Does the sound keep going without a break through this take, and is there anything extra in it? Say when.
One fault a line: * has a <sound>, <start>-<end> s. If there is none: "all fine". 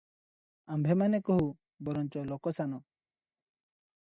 all fine